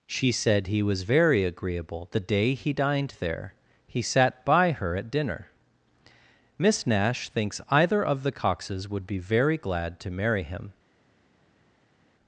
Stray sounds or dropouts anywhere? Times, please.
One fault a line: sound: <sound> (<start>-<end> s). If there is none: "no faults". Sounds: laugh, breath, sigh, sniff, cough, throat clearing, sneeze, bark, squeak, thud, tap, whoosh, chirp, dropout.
no faults